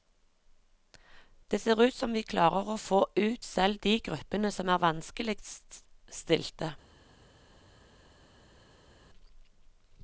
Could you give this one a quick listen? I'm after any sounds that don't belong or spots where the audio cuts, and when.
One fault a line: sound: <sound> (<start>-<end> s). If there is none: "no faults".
no faults